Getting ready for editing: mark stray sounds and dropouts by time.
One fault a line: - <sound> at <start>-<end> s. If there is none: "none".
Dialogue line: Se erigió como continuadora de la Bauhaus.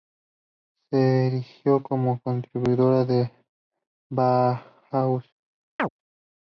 - chirp at 5.8-5.9 s